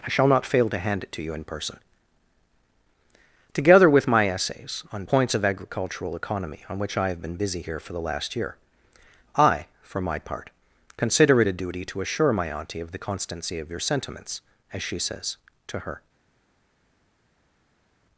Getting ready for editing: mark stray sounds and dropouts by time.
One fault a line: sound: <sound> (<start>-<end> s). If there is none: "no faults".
no faults